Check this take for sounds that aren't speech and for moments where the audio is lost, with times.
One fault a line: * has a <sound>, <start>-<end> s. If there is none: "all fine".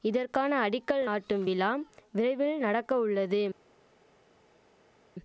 all fine